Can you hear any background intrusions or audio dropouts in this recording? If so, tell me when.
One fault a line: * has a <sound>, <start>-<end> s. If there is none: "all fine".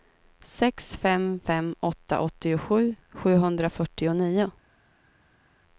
all fine